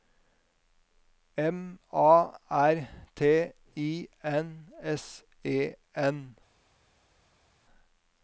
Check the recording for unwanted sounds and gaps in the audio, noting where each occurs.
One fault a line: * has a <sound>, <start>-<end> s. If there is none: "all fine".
all fine